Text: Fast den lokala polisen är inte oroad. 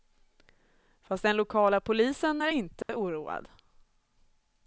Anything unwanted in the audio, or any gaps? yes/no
yes